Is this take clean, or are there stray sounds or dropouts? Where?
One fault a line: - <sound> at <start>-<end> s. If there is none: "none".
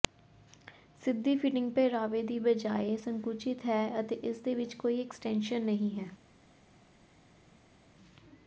none